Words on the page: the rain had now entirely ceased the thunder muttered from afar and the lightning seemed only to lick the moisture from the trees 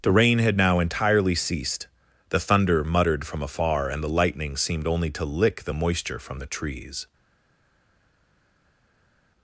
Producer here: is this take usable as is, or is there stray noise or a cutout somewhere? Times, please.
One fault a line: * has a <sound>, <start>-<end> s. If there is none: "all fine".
all fine